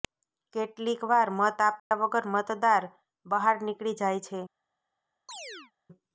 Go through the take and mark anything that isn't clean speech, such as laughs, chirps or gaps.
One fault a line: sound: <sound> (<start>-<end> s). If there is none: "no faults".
sound: dropout (1.8-1.9 s)
sound: chirp (5.3-5.7 s)